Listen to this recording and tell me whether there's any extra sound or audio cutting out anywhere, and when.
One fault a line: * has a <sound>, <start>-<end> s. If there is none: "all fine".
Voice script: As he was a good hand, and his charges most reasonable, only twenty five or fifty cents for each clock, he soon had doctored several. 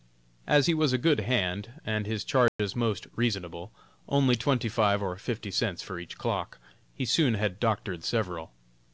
* has a dropout, 2.5-2.6 s